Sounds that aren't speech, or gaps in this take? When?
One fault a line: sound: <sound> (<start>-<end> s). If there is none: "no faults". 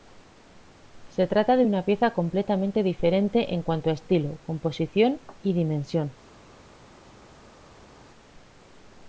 no faults